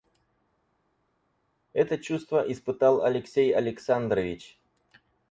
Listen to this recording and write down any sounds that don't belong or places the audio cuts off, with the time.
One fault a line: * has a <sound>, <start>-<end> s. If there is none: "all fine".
all fine